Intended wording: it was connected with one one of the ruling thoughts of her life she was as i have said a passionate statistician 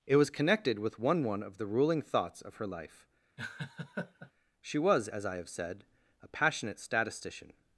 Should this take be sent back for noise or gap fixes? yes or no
yes